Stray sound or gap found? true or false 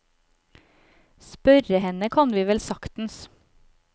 false